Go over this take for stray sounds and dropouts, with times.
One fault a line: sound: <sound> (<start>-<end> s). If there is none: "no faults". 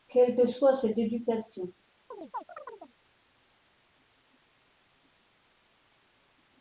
sound: chirp (2.1-3.0 s)